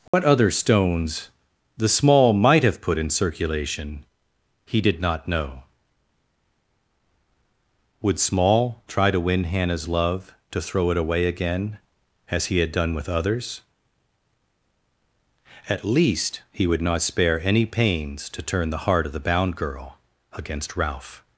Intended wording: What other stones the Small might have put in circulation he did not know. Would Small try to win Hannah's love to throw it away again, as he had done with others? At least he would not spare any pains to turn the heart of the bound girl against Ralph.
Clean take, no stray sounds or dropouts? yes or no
no